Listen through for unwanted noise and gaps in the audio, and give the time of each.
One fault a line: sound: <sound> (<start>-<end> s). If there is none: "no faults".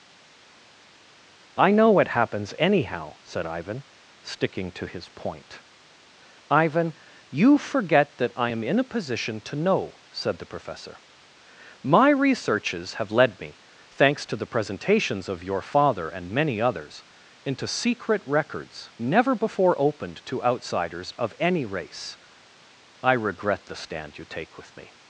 no faults